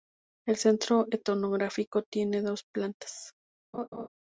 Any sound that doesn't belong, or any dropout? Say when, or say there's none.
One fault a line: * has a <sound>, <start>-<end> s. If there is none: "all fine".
* has a laugh, 3.7-4.1 s